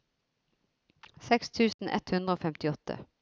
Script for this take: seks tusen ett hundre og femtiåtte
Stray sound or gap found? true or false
true